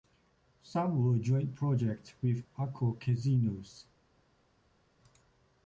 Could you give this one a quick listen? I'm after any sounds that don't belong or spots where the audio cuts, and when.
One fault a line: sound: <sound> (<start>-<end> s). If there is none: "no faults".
no faults